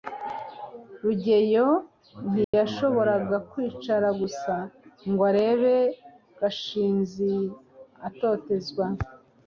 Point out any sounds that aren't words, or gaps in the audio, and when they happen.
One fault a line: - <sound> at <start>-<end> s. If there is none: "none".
- dropout at 2.4-2.5 s